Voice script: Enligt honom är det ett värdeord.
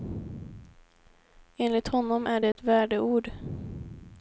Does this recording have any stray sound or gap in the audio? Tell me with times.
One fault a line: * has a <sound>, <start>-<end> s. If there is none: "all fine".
* has a dropout, 2.5-2.6 s